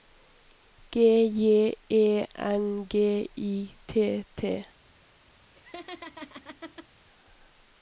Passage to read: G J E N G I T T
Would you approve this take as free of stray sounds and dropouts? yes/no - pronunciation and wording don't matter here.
no